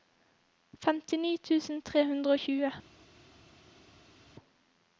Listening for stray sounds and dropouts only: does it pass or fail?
pass